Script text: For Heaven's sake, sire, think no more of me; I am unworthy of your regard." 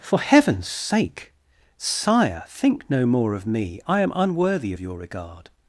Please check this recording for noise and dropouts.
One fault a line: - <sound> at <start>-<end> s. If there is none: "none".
none